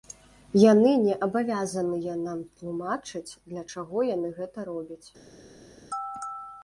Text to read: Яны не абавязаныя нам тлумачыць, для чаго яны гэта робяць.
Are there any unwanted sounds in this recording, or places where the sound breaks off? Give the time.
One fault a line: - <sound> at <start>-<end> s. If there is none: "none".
none